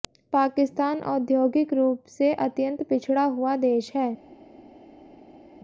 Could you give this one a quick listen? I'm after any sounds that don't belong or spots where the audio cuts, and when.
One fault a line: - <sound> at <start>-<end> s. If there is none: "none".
none